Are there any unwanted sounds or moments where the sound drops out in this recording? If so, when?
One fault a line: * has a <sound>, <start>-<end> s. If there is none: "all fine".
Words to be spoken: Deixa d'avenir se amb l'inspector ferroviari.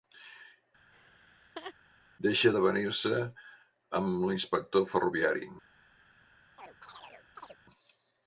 * has a laugh, 0.9-1.7 s
* has a chirp, 6.6-7.6 s